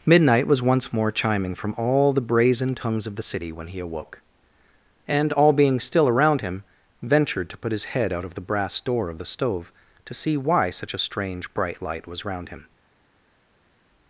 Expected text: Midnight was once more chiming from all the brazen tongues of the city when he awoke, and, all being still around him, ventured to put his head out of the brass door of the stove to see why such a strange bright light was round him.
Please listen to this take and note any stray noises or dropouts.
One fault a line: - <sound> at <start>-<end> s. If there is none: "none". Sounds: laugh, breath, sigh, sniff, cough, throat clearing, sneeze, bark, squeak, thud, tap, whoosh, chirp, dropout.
none